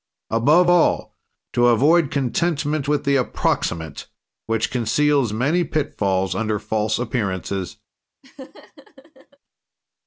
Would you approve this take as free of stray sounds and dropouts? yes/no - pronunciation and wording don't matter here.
no